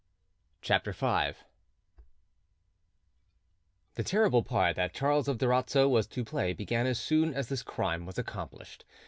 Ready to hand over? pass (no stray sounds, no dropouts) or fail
pass